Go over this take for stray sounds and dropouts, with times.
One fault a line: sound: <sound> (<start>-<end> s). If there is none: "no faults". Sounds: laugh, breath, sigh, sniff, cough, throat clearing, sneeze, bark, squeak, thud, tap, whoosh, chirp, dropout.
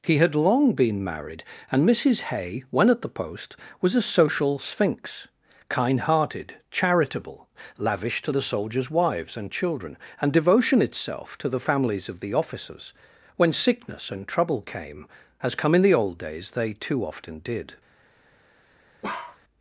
sound: bark (19.0-19.4 s)